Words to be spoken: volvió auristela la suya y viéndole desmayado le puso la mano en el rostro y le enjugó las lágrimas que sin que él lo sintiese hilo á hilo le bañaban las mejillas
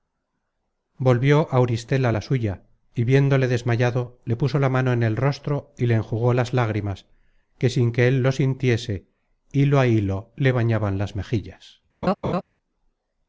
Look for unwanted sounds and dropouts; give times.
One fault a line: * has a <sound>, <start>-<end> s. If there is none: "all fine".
* has a laugh, 12.0-12.4 s